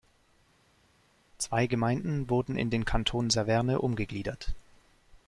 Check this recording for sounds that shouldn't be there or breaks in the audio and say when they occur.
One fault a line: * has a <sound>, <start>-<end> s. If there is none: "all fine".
all fine